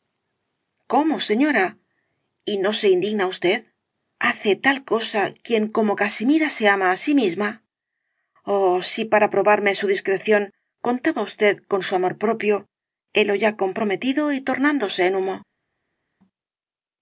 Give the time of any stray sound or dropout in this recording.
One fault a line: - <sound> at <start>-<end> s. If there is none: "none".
none